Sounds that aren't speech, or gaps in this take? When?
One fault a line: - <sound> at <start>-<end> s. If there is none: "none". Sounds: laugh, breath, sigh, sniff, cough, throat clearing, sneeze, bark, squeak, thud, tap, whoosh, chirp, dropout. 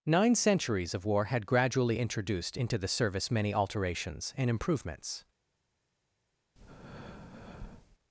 - breath at 6.6-8.0 s